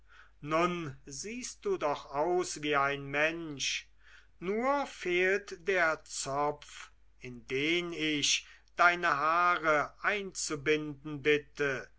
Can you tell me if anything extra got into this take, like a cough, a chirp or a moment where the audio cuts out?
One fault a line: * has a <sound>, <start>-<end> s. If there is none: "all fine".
all fine